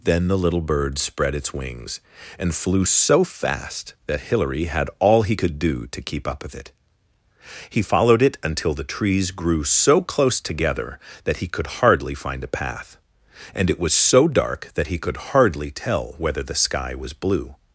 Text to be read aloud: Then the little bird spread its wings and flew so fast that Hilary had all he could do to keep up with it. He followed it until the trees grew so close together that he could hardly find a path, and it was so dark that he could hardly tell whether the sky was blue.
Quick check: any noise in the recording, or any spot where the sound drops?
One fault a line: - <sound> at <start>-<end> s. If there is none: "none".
none